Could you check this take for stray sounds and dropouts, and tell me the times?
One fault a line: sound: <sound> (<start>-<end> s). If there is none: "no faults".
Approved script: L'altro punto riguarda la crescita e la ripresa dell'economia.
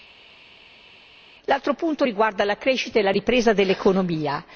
no faults